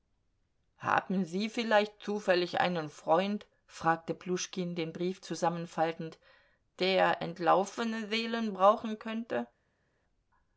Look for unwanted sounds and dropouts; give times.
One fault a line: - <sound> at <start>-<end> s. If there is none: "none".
none